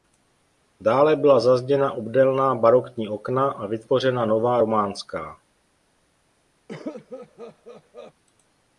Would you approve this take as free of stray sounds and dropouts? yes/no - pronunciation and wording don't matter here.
no